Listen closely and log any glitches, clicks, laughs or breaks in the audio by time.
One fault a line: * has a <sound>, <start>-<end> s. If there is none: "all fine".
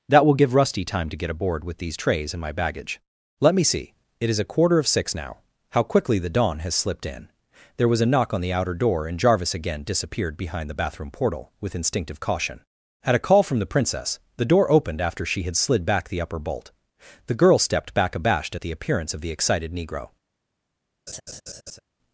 * has a laugh, 21.1-21.8 s